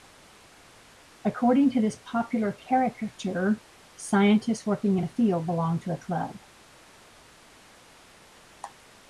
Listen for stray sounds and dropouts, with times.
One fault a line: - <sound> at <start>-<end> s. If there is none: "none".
none